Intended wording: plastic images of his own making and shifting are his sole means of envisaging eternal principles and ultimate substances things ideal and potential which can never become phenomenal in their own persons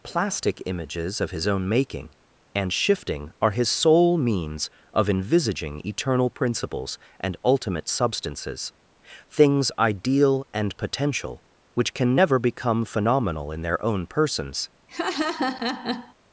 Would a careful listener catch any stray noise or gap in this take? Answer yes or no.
yes